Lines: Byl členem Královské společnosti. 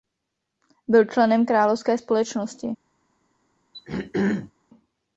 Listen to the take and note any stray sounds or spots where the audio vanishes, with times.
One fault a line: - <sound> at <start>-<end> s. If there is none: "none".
- throat clearing at 3.7-4.5 s